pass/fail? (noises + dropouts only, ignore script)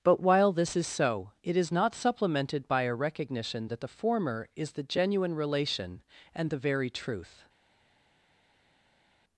pass